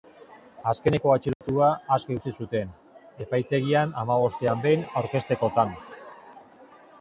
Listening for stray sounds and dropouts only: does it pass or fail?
fail